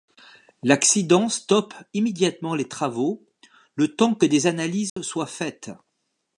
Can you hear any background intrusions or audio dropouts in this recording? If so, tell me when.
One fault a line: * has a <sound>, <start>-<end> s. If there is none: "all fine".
* has a dropout, 4.9-5.0 s